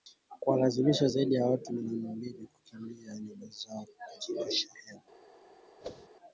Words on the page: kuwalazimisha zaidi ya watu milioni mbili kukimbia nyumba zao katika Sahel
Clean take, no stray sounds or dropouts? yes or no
no